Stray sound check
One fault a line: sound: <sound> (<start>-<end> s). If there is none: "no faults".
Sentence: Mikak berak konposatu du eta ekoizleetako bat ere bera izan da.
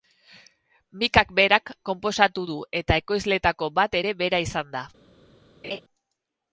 sound: laugh (5.6-5.8 s)